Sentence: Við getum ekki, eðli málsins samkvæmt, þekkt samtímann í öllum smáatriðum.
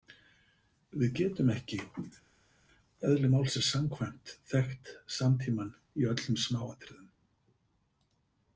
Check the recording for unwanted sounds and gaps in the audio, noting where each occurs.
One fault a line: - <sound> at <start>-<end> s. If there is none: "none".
none